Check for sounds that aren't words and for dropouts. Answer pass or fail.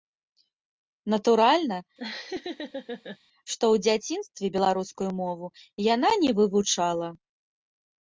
fail